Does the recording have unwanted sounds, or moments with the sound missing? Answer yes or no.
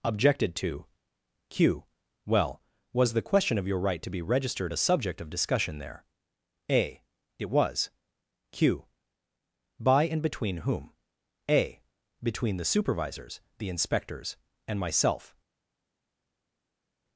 no